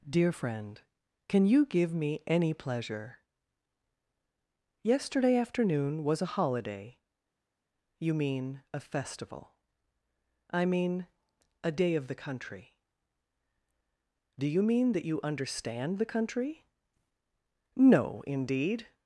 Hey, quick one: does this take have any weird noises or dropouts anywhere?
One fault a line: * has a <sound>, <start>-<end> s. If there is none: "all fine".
all fine